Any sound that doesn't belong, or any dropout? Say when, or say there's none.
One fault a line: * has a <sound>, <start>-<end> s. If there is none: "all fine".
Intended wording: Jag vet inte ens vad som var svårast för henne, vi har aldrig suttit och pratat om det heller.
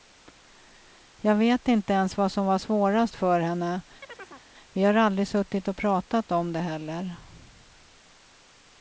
* has a chirp, 4.0-4.5 s